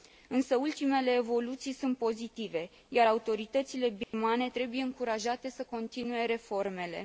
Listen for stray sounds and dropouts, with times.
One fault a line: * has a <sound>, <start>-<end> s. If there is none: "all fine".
* has a dropout, 4.0-4.1 s